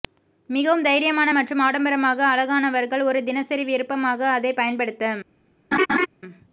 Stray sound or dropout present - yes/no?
yes